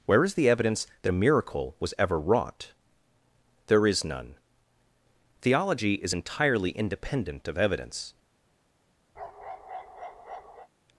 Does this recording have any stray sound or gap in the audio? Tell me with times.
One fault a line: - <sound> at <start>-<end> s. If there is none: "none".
- bark at 9.1-10.7 s